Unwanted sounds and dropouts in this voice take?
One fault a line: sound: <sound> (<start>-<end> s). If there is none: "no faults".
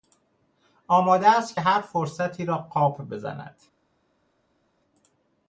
no faults